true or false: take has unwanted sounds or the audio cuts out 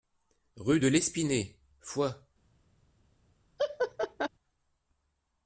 true